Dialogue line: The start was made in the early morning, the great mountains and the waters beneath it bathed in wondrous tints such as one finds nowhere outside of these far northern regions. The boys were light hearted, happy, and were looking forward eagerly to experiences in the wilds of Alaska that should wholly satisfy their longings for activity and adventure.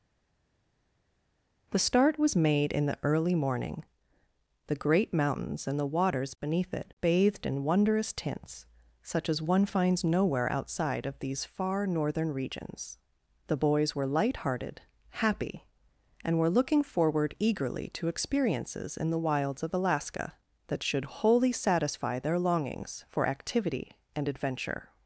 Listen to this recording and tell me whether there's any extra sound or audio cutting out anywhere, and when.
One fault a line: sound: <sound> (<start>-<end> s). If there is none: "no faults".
no faults